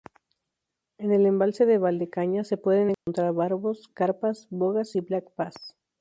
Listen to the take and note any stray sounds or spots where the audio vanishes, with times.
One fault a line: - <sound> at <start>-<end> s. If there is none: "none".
- dropout at 2.9-3.1 s